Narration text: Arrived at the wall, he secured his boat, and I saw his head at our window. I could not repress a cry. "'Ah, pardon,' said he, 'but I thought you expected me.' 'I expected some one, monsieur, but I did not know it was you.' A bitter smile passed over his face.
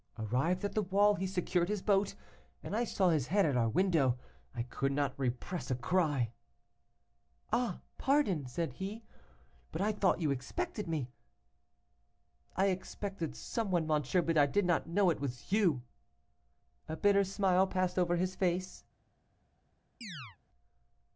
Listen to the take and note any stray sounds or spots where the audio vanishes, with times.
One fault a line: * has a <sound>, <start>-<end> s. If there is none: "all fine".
* has a chirp, 20.0-20.4 s